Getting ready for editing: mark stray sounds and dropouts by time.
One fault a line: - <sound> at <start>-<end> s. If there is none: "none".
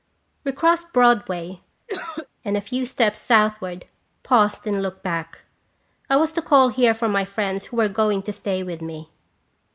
- cough at 1.9-2.3 s